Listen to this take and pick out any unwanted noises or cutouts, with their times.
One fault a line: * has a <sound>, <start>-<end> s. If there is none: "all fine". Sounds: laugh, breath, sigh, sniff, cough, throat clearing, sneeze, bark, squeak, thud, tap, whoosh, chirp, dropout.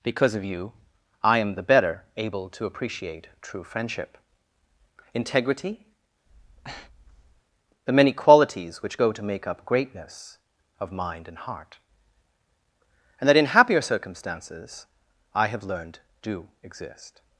* has a breath, 6.3-7.4 s